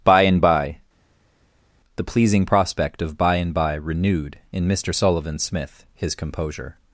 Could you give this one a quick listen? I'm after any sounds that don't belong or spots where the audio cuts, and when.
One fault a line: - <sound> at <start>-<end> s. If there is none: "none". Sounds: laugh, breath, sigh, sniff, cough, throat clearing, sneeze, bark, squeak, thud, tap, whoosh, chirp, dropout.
none